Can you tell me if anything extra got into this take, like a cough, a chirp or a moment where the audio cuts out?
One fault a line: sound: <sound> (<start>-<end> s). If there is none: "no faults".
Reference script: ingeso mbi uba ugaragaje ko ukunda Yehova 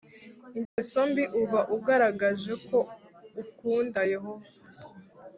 sound: dropout (0.6-0.8 s)